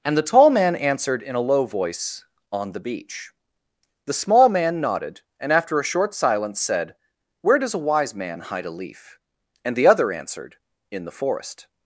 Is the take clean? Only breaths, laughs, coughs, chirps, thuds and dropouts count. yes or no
yes